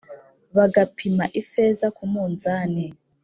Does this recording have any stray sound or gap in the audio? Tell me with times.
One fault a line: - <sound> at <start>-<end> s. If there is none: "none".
none